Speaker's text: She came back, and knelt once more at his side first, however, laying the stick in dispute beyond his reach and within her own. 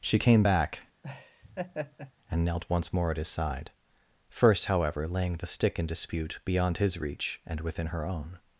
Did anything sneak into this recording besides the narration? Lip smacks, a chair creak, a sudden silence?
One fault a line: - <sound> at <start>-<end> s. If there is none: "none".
- laugh at 1.0-2.1 s